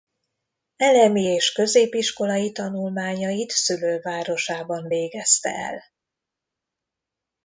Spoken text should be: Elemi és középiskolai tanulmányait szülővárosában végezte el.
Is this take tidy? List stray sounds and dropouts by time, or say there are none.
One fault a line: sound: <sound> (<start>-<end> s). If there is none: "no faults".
no faults